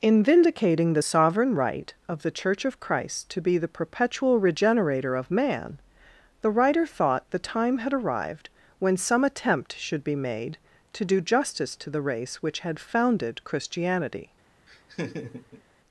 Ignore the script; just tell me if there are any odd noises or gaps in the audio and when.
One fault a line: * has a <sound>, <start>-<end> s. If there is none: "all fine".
* has a laugh, 14.7-15.6 s